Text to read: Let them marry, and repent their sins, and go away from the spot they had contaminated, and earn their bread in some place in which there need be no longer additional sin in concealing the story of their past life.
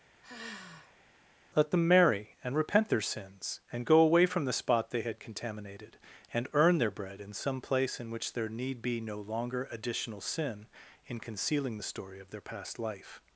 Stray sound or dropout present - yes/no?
yes